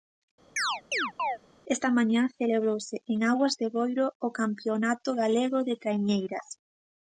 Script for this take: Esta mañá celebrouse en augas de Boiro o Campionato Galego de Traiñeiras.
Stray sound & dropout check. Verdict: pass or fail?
fail